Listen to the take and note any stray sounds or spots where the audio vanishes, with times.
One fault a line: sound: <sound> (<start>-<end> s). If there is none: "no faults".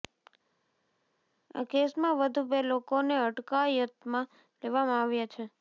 no faults